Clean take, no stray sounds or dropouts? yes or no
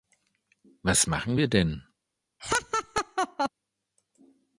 no